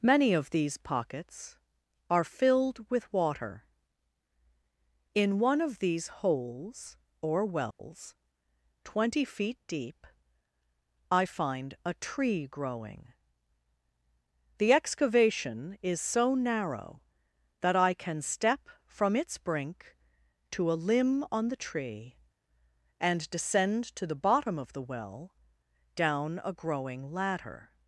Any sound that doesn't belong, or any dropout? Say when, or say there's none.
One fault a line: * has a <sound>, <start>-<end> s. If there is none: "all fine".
* has a dropout, 7.7-7.8 s